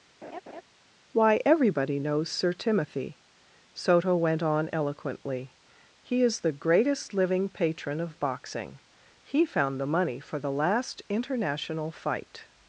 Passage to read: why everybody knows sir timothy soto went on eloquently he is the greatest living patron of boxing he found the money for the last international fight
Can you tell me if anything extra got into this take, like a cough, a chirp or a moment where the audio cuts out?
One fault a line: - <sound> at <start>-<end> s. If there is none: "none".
- laugh at 0.2-0.6 s